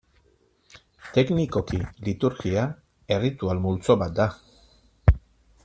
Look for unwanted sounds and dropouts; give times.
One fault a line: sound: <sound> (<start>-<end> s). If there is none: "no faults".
no faults